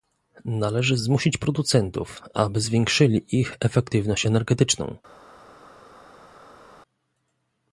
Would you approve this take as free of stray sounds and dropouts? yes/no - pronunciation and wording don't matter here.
yes